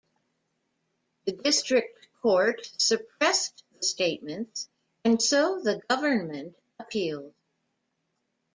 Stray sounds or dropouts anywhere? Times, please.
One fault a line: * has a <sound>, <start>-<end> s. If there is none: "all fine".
all fine